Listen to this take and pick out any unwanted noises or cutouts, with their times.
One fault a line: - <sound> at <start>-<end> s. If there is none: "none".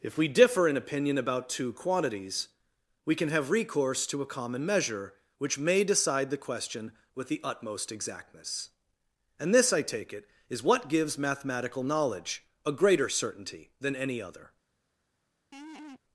- laugh at 15.5-16.0 s